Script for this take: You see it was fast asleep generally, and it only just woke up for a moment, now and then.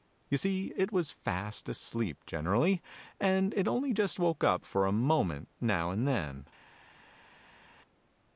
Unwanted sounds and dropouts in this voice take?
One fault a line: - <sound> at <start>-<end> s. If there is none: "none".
none